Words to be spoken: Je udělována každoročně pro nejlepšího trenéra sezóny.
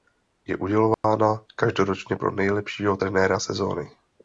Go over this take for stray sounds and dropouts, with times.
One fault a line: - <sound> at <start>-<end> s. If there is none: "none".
- dropout at 0.9-1.0 s